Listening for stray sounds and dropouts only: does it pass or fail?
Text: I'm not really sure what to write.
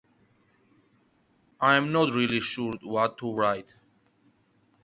pass